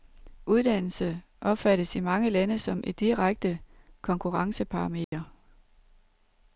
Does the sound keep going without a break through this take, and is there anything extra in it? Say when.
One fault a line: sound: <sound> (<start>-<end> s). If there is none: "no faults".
sound: dropout (5.0-5.1 s)